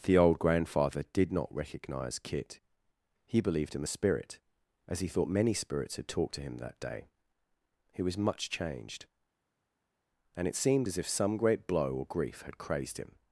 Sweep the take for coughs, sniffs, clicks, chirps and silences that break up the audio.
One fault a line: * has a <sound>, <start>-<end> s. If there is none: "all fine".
all fine